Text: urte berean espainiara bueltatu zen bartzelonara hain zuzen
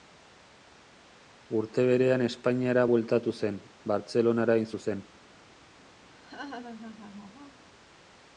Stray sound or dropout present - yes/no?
yes